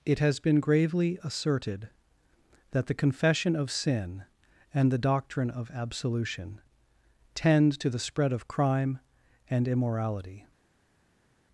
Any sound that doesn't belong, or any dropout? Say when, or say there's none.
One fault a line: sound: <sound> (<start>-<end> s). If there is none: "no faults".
no faults